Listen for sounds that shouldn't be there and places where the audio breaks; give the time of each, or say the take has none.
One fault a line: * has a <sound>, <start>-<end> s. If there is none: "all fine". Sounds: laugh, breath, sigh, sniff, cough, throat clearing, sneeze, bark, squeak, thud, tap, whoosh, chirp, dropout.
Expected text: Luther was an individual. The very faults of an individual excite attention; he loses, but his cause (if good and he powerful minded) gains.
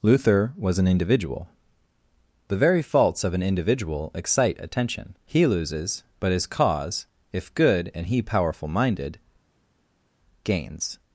all fine